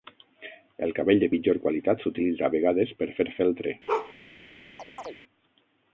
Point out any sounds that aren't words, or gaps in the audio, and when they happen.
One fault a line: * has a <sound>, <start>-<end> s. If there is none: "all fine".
* has a bark, 3.9-4.1 s
* has a chirp, 4.8-5.2 s